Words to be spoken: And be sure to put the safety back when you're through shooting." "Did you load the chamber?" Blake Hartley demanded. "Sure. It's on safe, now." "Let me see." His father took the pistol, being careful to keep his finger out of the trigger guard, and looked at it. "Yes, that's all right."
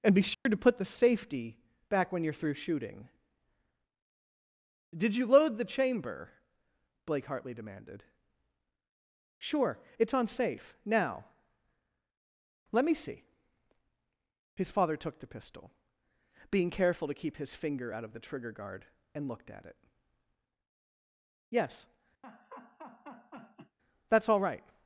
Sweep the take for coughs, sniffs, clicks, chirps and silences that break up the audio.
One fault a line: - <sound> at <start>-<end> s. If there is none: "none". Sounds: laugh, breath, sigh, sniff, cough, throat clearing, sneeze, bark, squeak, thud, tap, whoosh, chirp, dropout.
- dropout at 0.3-0.5 s
- laugh at 22.2-23.8 s